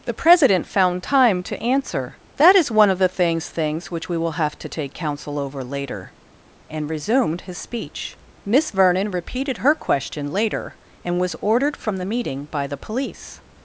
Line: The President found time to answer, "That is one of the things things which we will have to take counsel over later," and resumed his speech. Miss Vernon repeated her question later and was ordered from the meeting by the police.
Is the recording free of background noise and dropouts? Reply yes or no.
yes